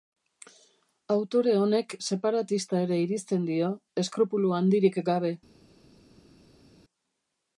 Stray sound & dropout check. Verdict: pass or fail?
pass